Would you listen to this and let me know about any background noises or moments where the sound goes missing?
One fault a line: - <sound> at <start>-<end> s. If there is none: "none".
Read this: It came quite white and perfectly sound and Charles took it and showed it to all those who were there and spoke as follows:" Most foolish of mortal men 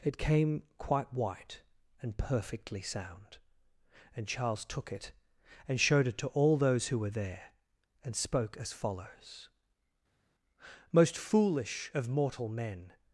none